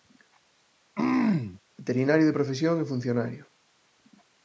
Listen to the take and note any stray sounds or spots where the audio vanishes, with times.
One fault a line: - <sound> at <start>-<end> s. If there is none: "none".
- throat clearing at 0.9-1.6 s